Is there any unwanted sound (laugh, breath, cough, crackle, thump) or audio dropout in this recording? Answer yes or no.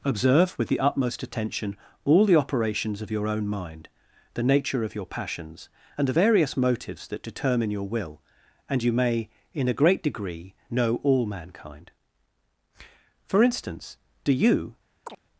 yes